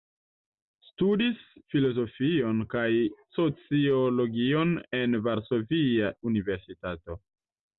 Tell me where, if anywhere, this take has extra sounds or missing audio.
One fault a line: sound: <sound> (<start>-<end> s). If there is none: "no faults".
no faults